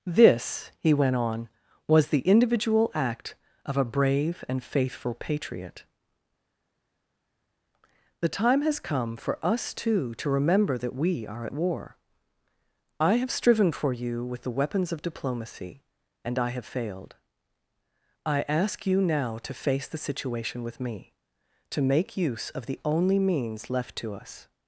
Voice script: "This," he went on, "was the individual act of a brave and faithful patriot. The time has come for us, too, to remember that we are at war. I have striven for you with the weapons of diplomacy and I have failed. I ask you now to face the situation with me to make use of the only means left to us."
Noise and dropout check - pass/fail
pass